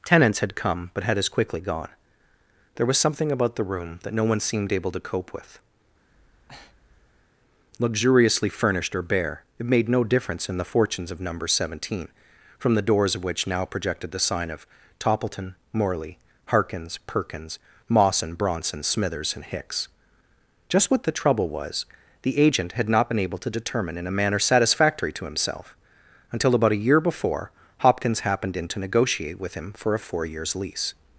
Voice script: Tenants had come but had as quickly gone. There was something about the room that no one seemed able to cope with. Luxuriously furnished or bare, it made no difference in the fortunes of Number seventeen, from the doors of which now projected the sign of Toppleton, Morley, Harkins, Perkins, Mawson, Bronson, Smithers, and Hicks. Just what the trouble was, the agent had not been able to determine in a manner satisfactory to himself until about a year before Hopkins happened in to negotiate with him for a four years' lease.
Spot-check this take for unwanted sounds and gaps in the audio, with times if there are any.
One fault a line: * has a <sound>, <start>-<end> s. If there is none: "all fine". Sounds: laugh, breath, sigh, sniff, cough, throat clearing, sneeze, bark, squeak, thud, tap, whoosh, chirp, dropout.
* has a breath, 6.1-7.3 s